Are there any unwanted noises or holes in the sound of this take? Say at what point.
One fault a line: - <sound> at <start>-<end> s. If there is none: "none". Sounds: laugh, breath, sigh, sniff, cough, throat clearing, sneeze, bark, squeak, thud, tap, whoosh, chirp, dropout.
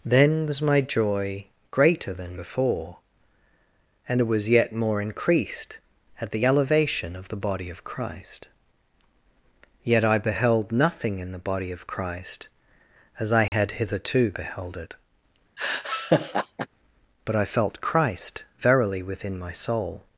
- dropout at 13.5-13.5 s
- laugh at 15.6-16.7 s